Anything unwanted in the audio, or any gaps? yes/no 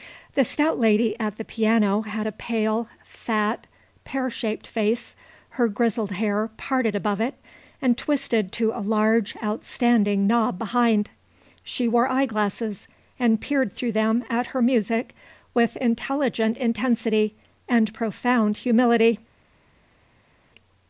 no